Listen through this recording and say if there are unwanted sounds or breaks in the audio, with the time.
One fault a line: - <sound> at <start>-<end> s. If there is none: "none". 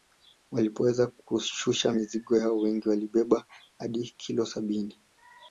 none